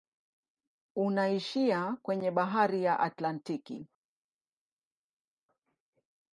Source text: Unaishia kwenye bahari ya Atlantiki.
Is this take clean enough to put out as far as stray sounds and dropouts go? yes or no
yes